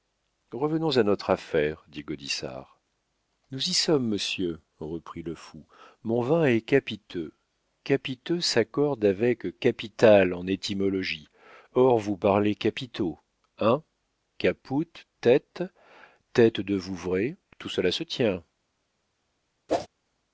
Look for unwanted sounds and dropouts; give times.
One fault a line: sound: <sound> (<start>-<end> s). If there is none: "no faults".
sound: whoosh (19.7-19.9 s)